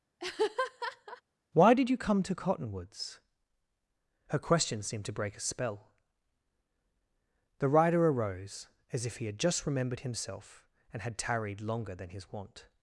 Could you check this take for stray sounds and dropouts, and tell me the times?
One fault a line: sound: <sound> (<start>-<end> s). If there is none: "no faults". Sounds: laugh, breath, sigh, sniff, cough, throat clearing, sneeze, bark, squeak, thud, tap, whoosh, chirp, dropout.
sound: laugh (0.2-1.2 s)